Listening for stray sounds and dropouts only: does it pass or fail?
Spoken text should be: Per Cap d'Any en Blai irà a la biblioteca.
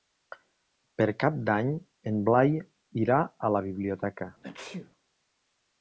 fail